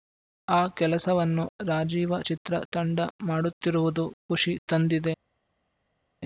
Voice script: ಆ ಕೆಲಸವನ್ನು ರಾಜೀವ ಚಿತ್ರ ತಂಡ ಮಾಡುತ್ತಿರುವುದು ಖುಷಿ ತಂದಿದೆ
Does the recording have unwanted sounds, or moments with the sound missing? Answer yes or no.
no